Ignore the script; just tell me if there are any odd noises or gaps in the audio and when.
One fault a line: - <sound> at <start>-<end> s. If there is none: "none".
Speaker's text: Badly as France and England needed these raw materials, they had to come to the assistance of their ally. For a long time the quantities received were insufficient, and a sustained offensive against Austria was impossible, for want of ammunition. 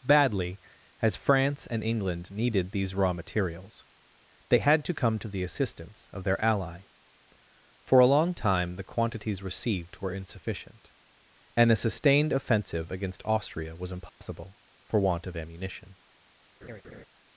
- dropout at 14.1-14.2 s
- laugh at 16.6-17.1 s